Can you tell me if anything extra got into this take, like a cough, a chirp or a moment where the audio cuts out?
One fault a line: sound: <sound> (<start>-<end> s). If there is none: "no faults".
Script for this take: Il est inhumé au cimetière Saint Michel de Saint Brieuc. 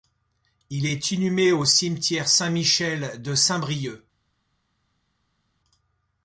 no faults